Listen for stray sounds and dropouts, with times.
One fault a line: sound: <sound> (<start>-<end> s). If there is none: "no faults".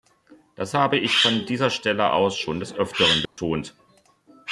sound: dropout (3.3-3.4 s)